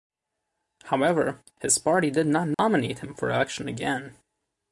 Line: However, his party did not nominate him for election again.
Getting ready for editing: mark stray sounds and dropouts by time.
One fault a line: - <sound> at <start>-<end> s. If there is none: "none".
- dropout at 2.5-2.6 s